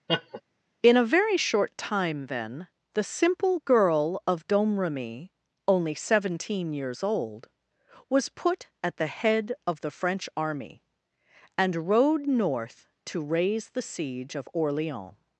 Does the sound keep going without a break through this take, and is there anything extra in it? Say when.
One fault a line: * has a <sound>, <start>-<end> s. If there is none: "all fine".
* has a laugh, 0.1-0.4 s